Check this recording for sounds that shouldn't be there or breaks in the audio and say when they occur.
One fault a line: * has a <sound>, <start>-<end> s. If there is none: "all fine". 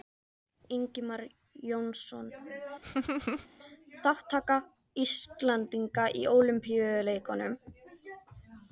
* has a laugh, 2.8-3.5 s